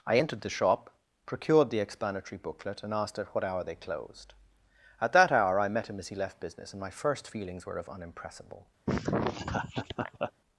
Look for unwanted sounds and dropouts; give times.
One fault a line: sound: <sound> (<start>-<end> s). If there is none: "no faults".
sound: laugh (8.9-10.3 s)